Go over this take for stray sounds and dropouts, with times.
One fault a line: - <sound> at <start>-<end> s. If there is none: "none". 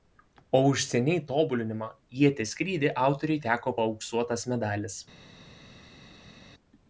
none